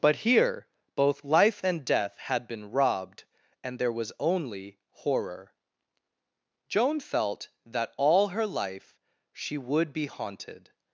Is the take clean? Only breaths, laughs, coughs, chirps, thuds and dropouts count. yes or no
yes